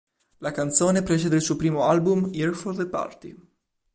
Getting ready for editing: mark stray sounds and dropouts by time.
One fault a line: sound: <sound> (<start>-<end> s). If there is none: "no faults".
no faults